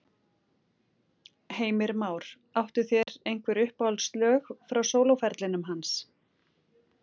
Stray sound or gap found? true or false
true